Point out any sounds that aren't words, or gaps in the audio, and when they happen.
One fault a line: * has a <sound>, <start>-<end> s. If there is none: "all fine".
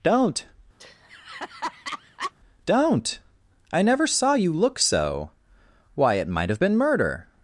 * has a laugh, 0.8-2.3 s